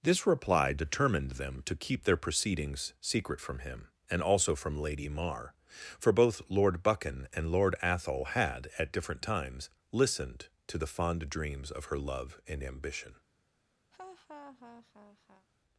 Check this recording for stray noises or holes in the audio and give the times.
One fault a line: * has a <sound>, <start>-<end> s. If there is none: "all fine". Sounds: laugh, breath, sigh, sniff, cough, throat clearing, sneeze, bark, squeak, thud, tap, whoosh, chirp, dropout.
* has a laugh, 13.9-15.5 s